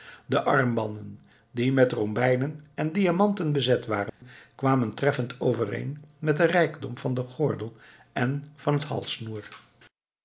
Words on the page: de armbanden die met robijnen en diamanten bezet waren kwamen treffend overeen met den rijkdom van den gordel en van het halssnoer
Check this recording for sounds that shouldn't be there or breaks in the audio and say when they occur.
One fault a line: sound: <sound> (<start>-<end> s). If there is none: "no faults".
sound: dropout (4.1-4.2 s)